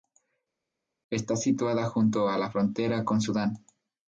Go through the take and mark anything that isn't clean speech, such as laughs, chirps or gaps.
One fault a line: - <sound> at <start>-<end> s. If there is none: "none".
none